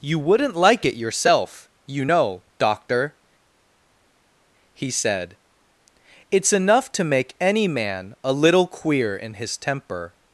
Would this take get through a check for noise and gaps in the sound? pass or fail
pass